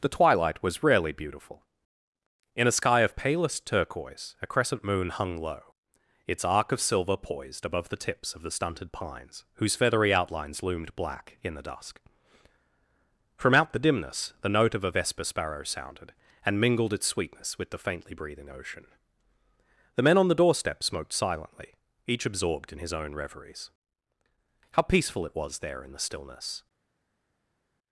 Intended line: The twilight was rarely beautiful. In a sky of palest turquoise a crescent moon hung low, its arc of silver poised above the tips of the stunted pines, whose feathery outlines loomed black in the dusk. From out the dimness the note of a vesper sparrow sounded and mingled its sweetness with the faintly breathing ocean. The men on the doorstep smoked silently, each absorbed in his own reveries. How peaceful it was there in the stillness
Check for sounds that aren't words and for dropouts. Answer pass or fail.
pass